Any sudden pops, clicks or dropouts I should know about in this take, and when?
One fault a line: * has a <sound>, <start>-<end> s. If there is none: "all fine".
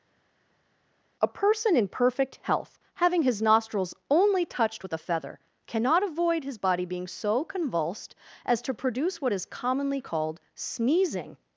all fine